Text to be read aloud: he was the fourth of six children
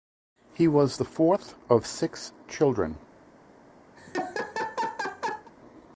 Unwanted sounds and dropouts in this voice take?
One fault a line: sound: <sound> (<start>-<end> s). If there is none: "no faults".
sound: laugh (4.0-5.5 s)